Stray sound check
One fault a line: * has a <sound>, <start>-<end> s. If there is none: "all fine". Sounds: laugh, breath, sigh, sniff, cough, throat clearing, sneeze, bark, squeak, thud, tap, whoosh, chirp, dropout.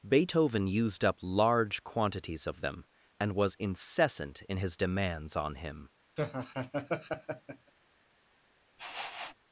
* has a laugh, 6.2-7.7 s
* has a sniff, 8.8-9.3 s